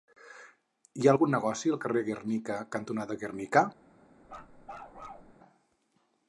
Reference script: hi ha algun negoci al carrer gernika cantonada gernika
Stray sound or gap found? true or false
true